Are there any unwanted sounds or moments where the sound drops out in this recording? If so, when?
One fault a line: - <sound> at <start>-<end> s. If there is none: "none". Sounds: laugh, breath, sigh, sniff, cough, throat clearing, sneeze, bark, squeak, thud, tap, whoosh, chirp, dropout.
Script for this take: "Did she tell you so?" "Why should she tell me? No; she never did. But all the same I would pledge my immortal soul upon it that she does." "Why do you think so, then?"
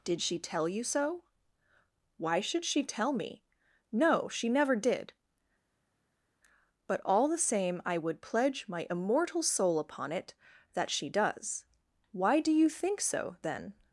none